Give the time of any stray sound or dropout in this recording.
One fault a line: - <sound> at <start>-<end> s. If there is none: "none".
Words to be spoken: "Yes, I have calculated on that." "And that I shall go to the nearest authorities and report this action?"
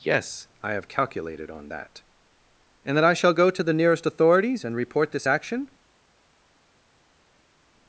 none